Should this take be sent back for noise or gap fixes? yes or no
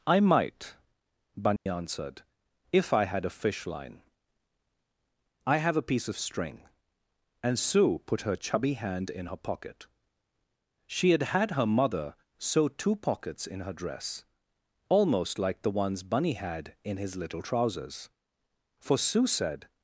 yes